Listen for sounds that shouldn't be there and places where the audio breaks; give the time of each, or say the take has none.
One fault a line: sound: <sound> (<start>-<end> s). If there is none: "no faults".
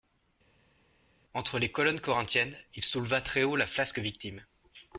no faults